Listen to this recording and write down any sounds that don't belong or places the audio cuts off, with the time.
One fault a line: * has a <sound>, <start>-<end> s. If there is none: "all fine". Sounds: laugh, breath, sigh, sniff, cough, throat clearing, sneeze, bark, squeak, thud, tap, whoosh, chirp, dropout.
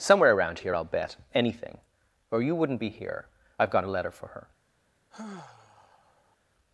* has a sigh, 5.1-6.4 s